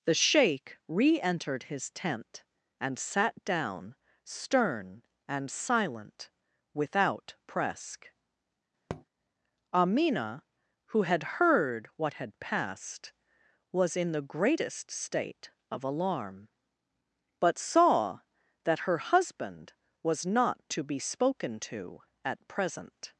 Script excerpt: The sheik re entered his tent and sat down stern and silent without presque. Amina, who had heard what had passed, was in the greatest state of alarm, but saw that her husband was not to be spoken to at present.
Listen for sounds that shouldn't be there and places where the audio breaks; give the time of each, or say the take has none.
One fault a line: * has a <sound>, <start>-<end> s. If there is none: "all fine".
* has a tap, 8.9-9.0 s